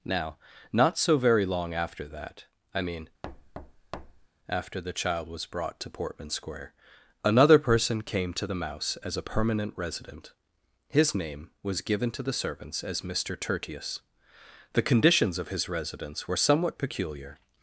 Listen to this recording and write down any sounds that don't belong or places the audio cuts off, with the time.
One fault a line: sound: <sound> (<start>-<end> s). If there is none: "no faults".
sound: thud (3.2-4.3 s)